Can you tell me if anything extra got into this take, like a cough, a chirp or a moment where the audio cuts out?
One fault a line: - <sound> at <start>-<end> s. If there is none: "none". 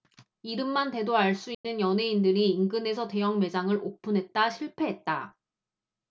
- dropout at 1.5-1.6 s